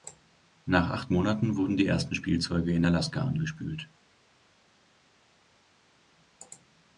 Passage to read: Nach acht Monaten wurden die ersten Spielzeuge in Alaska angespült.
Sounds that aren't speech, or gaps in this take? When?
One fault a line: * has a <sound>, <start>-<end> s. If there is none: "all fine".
all fine